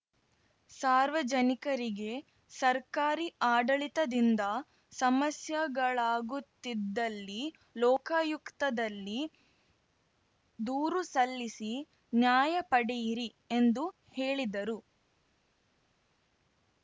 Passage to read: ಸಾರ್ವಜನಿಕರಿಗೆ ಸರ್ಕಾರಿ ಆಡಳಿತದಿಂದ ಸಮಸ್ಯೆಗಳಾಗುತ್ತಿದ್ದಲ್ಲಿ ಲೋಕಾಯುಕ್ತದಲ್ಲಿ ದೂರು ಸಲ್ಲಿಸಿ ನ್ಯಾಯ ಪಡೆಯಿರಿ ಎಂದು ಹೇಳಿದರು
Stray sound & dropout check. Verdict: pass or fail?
pass